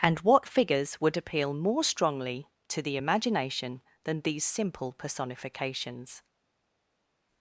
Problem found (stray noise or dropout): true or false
false